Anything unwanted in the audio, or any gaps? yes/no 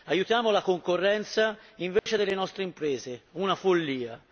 yes